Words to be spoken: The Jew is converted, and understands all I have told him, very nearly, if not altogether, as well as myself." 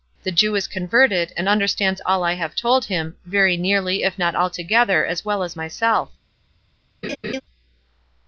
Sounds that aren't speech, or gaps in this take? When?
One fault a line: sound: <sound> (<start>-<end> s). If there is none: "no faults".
sound: laugh (7.0-7.4 s)